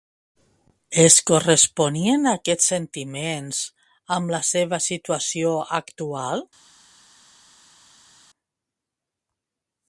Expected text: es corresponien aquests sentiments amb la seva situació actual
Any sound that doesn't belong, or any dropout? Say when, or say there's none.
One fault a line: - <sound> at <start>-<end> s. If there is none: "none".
none